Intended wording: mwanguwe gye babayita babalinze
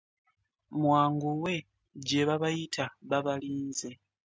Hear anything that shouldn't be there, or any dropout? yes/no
no